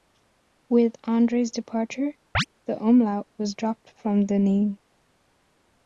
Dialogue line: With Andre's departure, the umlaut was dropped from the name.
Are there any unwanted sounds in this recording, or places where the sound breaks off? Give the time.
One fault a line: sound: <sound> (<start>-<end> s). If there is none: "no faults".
sound: chirp (2.3-2.5 s)